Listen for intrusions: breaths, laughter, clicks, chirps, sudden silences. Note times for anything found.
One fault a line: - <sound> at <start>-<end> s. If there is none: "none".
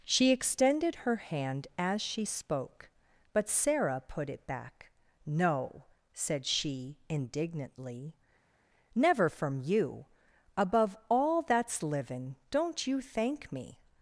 none